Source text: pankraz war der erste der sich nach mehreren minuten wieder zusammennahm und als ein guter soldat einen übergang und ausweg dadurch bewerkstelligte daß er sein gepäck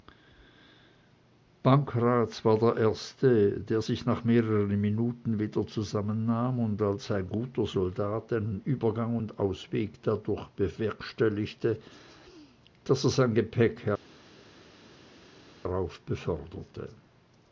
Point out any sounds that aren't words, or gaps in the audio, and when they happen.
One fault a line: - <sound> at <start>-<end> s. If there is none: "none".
none